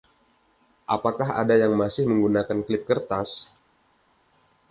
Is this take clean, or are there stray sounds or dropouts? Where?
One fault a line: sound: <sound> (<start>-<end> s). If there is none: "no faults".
no faults